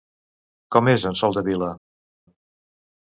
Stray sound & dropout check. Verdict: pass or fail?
pass